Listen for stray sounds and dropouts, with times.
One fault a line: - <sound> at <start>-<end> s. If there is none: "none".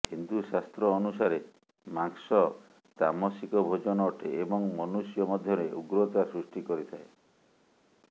none